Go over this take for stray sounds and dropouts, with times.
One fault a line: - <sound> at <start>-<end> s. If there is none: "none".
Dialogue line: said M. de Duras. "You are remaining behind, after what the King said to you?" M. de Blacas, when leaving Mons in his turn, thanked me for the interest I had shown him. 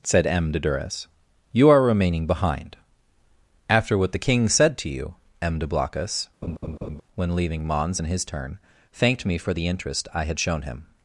- laugh at 6.4-7.0 s